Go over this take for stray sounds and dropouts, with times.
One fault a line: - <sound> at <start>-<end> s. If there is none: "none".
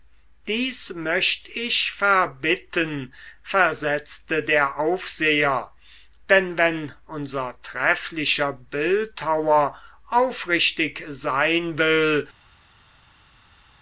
none